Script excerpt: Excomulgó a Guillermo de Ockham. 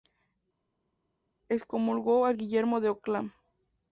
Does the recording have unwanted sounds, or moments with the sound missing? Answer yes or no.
no